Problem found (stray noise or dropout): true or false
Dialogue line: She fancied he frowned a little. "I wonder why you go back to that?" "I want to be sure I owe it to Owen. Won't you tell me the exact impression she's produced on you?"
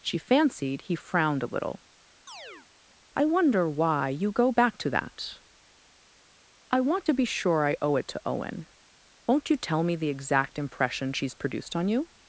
true